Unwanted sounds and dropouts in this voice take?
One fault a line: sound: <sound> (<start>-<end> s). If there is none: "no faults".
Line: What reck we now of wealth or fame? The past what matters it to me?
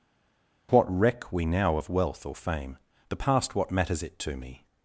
no faults